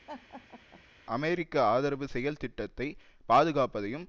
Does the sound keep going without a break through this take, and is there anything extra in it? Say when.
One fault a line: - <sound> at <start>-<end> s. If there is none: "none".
- laugh at 0.1-0.8 s